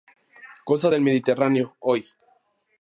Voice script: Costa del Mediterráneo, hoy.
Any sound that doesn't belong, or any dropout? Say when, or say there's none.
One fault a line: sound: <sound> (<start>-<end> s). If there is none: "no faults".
no faults